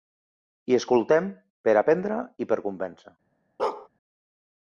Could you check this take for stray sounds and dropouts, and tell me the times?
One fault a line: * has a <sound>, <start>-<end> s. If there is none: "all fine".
* has a bark, 3.6-3.9 s